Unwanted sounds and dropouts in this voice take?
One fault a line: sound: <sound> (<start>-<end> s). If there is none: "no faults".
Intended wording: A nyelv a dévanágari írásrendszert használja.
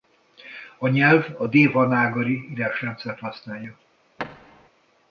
sound: thud (4.2-4.7 s)